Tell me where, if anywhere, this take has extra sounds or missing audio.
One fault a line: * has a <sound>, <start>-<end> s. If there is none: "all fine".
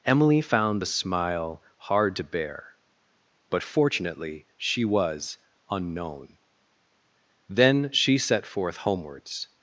all fine